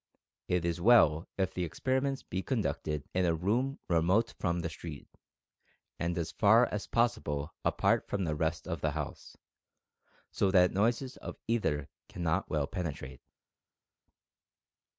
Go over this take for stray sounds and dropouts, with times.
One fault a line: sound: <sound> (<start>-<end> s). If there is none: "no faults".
no faults